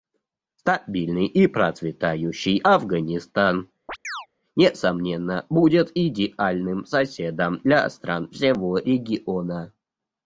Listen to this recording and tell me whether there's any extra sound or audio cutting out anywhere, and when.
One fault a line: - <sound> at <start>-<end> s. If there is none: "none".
- chirp at 3.9-4.3 s